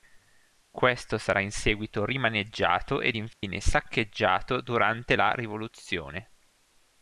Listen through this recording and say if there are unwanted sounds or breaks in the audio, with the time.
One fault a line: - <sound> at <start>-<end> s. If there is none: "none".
- dropout at 3.3-3.4 s